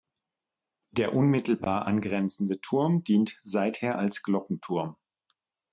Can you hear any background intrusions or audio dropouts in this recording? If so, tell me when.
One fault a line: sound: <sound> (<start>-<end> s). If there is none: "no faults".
no faults